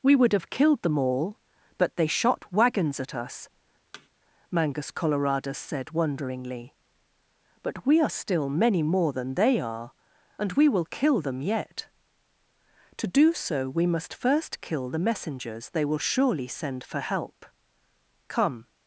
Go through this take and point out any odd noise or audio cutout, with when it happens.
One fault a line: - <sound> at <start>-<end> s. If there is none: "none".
- thud at 3.9-4.1 s